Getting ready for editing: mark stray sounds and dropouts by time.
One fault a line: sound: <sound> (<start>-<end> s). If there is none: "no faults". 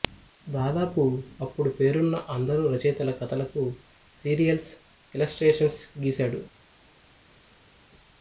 no faults